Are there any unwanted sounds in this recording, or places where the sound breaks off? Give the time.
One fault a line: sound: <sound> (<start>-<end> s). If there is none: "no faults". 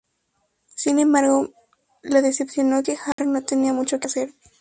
sound: dropout (3.1-3.2 s)